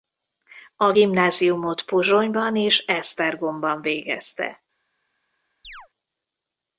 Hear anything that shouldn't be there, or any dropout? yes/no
yes